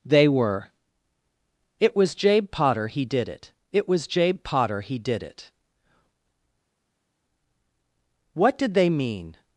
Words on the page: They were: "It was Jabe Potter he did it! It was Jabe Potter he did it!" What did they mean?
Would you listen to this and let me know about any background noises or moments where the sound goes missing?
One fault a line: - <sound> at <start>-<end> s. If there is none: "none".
none